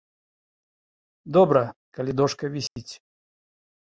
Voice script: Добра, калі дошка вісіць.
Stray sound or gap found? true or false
true